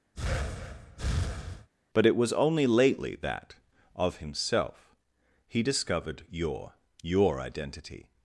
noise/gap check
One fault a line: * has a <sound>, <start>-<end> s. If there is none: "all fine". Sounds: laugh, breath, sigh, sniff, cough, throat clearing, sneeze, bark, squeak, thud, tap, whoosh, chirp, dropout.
* has a breath, 0.1-1.7 s